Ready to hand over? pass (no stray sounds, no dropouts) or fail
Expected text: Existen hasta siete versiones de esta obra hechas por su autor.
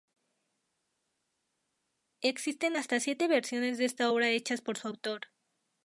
pass